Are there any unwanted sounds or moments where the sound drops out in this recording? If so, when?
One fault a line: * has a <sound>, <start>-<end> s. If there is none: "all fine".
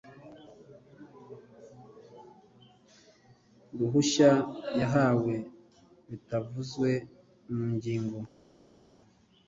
all fine